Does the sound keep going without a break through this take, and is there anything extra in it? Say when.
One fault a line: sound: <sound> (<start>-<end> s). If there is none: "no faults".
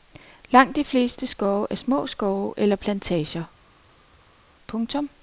no faults